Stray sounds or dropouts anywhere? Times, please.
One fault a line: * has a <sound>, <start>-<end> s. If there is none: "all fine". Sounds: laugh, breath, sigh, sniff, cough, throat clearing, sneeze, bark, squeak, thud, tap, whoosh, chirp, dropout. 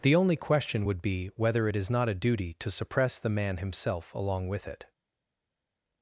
all fine